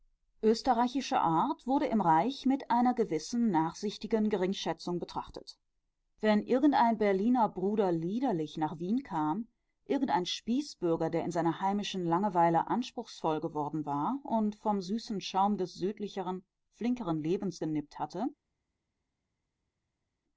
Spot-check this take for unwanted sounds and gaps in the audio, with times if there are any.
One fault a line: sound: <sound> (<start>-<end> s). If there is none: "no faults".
no faults